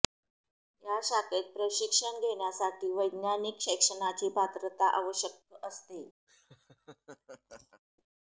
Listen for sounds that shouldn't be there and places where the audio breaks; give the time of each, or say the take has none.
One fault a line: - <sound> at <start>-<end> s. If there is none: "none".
- laugh at 6.3-7.8 s